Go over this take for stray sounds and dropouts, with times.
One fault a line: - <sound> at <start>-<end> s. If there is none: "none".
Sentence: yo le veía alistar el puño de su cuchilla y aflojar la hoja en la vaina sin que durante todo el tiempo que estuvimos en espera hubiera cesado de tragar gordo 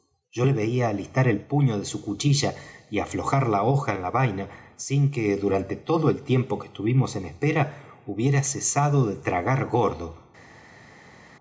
none